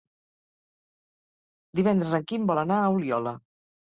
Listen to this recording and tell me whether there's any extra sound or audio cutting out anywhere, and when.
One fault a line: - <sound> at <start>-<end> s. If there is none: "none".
none